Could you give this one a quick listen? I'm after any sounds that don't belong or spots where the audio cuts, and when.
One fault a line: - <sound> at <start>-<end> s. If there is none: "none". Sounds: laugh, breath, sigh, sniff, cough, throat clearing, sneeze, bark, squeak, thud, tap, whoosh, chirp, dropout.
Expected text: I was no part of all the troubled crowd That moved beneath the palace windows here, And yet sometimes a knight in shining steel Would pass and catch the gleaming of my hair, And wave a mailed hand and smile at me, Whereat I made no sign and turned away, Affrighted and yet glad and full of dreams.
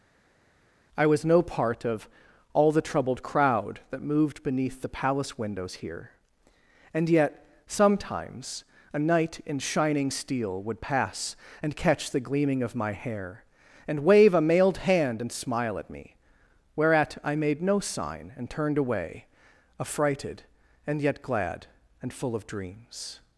none